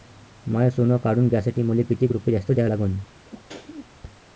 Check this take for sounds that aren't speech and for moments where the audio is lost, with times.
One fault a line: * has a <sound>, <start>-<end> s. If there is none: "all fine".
* has a sneeze, 3.3-3.9 s